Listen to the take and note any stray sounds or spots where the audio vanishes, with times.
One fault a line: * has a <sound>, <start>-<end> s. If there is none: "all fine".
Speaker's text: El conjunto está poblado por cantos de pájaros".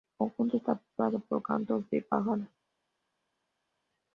all fine